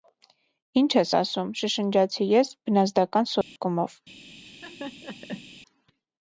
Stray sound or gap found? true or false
true